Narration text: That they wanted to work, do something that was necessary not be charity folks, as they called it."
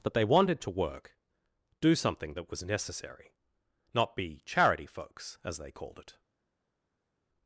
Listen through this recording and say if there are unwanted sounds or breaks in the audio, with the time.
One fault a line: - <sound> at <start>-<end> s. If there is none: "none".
none